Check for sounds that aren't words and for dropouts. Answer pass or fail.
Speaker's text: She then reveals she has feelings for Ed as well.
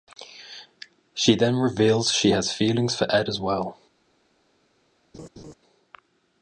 fail